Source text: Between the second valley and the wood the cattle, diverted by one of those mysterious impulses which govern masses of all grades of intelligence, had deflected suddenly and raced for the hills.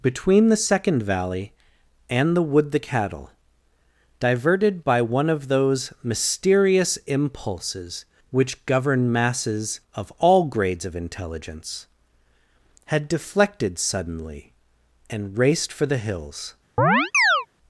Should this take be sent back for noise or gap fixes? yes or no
yes